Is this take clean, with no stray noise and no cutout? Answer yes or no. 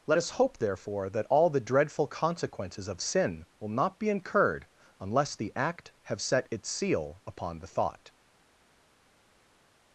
yes